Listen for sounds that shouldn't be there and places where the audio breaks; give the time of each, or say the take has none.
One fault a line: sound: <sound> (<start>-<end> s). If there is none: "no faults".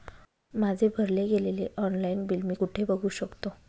no faults